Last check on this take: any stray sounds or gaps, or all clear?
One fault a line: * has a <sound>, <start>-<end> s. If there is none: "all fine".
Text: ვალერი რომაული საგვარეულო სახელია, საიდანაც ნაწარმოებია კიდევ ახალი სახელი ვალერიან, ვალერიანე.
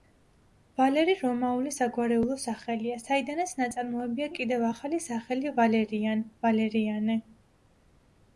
all fine